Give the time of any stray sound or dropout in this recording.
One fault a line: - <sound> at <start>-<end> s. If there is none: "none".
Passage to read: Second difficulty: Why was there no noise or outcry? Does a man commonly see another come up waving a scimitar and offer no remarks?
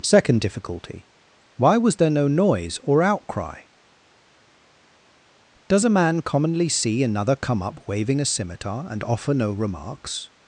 none